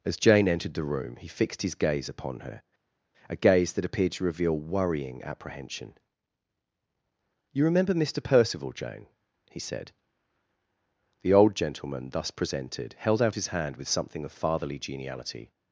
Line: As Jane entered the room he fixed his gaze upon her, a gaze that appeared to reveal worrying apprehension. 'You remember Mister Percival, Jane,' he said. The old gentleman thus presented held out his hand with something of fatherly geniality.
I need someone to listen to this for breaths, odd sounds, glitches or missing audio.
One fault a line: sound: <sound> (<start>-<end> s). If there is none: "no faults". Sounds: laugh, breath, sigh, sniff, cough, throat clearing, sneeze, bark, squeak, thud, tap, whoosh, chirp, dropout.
no faults